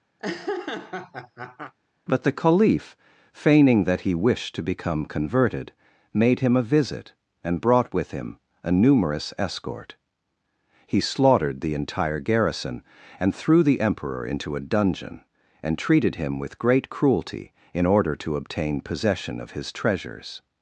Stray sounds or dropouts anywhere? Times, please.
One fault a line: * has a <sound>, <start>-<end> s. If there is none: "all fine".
* has a laugh, 0.2-1.7 s